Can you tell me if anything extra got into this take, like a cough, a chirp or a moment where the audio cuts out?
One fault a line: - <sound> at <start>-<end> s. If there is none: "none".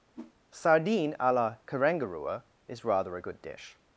- whoosh at 0.1-0.3 s